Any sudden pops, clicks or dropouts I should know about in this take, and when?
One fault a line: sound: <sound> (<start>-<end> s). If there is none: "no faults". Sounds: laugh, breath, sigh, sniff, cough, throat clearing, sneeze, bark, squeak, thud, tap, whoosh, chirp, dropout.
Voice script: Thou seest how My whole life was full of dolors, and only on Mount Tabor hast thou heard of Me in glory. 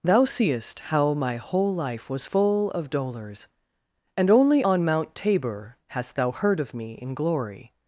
no faults